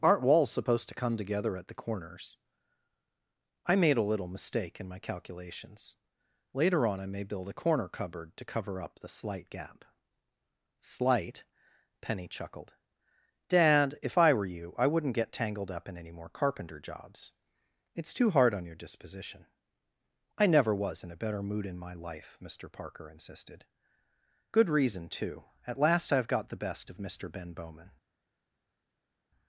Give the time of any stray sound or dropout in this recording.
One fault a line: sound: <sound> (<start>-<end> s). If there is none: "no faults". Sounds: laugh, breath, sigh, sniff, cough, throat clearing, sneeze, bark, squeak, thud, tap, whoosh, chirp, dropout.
no faults